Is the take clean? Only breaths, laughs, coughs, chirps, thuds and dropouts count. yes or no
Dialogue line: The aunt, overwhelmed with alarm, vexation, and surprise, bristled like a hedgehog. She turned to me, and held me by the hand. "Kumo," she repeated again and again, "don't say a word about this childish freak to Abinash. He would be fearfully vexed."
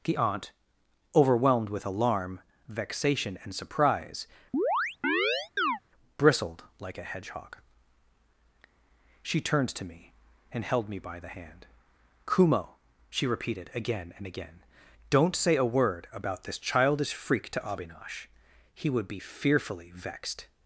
no